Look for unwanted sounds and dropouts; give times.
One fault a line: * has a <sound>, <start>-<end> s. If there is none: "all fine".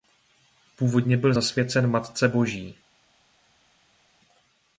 all fine